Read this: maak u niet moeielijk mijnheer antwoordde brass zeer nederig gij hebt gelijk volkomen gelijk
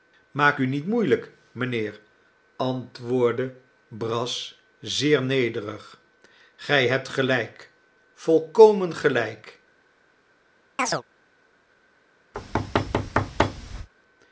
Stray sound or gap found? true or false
true